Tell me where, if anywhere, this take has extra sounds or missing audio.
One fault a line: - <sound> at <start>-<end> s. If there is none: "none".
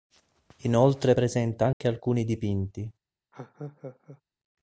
- dropout at 1.7-1.8 s
- laugh at 3.3-4.2 s